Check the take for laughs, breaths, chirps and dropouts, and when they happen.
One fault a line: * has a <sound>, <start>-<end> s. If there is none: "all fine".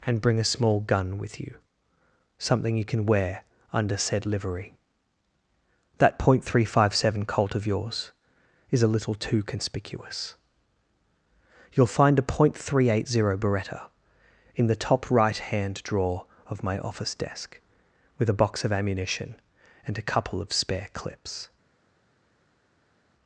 all fine